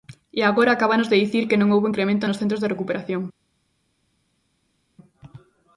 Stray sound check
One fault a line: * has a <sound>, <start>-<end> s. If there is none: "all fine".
all fine